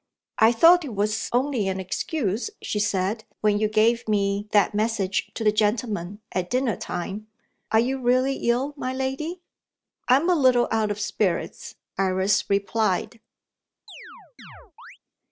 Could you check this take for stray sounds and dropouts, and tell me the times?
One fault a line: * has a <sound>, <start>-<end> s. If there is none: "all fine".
* has a chirp, 13.9-15.0 s